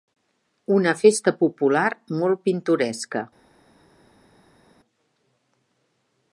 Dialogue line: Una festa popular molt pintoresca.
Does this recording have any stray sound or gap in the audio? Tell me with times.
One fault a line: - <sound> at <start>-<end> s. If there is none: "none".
none